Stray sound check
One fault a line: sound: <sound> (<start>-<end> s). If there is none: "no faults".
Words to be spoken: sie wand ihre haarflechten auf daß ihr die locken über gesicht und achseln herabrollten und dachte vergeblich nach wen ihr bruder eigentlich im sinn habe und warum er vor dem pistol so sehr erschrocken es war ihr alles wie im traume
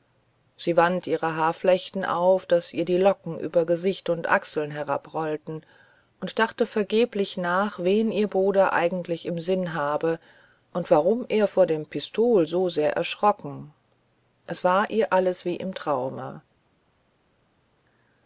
no faults